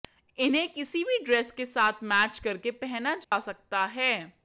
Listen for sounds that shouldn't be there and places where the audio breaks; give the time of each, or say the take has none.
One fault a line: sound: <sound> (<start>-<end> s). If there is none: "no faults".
sound: dropout (3.2-3.3 s)